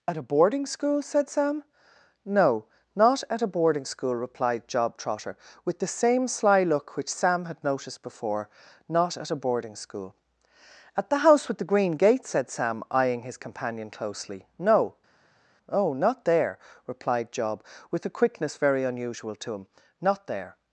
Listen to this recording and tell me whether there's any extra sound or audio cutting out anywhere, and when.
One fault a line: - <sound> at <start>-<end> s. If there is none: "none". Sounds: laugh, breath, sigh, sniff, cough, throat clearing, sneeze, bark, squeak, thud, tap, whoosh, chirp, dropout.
none